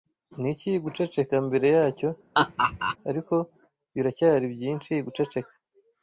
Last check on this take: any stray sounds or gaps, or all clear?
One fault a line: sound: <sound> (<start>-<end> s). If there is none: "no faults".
sound: laugh (2.3-3.0 s)